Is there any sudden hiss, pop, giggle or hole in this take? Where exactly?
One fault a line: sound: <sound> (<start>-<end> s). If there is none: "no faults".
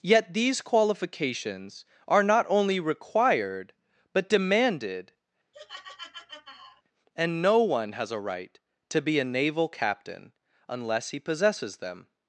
sound: laugh (5.5-6.8 s)